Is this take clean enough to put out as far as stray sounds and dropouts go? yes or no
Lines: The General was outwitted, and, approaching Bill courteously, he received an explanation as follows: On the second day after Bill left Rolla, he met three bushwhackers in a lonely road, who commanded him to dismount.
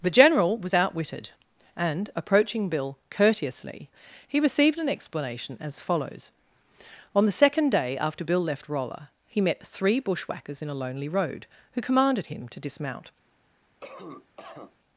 no